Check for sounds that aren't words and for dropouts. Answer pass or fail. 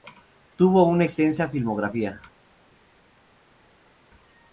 pass